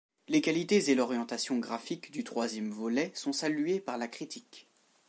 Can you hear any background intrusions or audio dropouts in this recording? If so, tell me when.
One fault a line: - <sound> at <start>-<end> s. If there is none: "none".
none